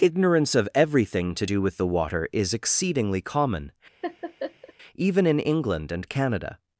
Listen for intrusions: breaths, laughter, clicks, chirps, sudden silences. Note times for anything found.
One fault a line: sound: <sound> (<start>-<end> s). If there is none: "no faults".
sound: laugh (4.0-4.7 s)